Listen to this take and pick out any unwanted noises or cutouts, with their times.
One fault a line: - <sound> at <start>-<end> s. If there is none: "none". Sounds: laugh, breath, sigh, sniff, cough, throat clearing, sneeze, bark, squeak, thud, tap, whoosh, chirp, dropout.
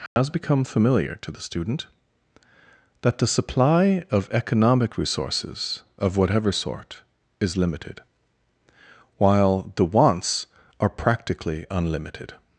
- dropout at 0.1-0.2 s